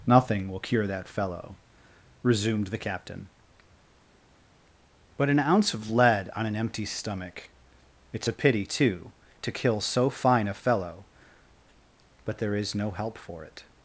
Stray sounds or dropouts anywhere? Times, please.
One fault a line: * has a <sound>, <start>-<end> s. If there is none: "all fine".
all fine